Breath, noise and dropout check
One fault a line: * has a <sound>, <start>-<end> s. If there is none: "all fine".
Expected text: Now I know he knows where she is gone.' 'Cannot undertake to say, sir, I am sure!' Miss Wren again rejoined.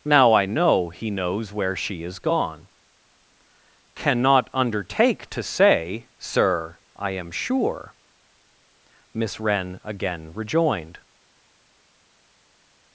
all fine